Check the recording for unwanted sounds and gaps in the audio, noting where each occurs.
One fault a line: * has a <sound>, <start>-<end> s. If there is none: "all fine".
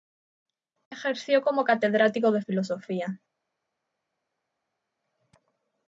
all fine